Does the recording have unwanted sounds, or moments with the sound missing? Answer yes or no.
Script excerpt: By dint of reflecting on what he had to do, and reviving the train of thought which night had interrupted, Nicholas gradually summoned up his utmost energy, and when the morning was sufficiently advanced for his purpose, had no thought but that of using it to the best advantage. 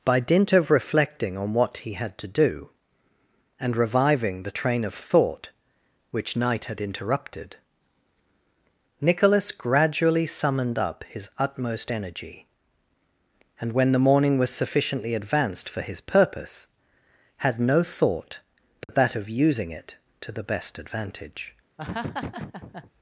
yes